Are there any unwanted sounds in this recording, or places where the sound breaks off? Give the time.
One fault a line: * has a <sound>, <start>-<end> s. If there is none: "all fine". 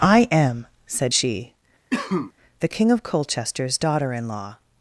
* has a cough, 1.9-2.3 s